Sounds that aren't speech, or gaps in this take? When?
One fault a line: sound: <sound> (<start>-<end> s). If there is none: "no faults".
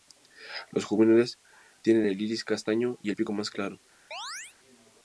sound: chirp (4.1-4.6 s)